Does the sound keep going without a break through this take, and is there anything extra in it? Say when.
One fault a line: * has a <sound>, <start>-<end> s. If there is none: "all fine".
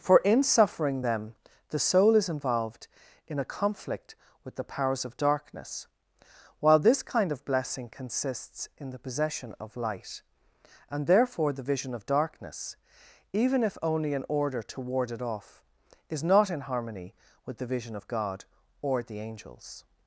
all fine